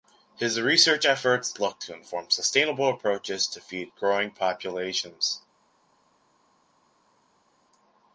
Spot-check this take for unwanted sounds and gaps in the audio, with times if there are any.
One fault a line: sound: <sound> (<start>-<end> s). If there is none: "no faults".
no faults